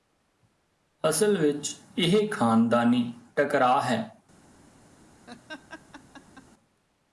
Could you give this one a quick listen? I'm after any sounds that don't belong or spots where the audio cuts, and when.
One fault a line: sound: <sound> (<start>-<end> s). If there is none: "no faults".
sound: laugh (5.3-6.5 s)